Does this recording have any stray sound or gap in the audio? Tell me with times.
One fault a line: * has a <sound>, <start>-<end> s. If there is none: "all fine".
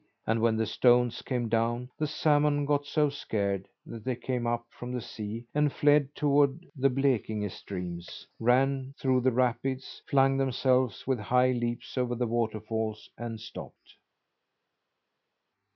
all fine